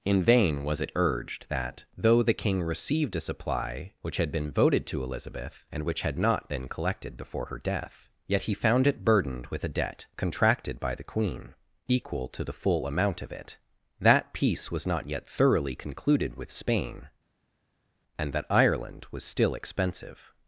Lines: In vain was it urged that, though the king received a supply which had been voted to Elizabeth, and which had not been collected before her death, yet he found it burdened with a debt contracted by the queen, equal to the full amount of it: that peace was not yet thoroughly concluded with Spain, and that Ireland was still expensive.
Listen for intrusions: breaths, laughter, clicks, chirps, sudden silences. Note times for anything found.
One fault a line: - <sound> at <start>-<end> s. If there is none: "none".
none